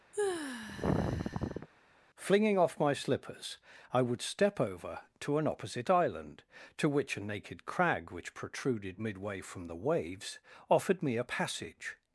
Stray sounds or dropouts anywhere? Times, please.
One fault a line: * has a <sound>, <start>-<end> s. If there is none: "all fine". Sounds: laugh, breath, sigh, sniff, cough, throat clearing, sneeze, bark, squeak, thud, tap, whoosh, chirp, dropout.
* has a sigh, 0.1-1.7 s